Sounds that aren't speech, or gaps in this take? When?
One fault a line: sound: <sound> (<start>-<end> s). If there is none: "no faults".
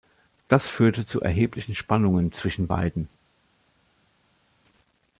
no faults